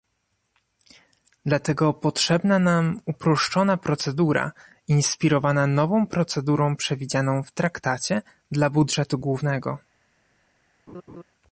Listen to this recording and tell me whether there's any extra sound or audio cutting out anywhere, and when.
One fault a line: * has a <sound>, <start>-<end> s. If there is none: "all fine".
* has a laugh, 10.9-11.2 s